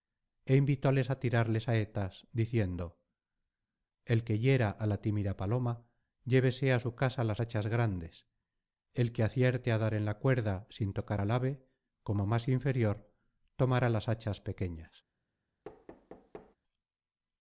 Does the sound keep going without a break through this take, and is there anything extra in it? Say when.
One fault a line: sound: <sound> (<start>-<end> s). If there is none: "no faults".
sound: thud (15.6-16.6 s)